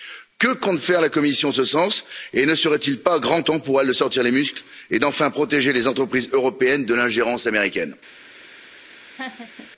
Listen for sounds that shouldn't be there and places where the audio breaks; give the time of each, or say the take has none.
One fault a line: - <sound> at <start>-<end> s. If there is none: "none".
- laugh at 9.1-9.7 s